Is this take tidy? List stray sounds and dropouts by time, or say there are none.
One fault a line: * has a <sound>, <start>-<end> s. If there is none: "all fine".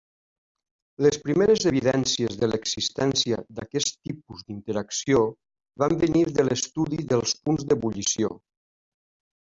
all fine